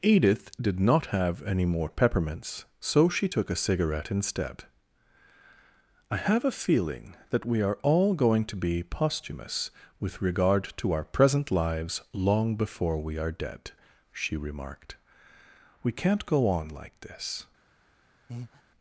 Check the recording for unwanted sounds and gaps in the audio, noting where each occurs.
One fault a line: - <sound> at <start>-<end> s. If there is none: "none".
- breath at 18.3-18.6 s